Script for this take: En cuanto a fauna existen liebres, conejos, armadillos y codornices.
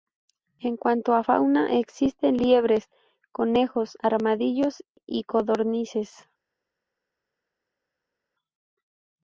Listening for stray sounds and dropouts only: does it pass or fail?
pass